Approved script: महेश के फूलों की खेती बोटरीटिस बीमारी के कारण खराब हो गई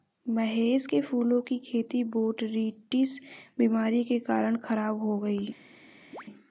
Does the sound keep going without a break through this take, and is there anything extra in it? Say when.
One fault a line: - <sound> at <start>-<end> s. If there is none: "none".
- chirp at 6.1-6.2 s